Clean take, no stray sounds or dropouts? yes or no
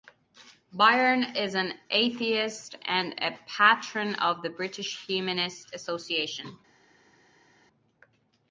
yes